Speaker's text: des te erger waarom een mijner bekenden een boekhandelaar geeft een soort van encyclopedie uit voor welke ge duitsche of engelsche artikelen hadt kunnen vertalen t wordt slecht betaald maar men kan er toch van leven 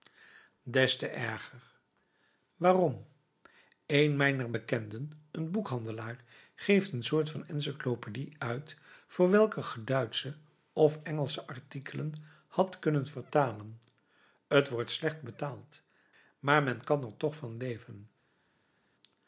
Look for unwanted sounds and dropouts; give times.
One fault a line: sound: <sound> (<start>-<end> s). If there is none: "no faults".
no faults